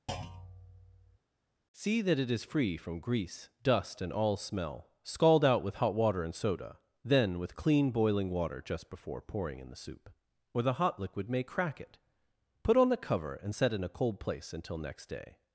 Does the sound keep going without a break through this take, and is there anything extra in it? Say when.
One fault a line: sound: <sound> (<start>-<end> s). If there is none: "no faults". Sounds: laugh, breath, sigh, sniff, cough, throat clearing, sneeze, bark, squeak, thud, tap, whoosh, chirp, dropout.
sound: thud (0.1-1.2 s)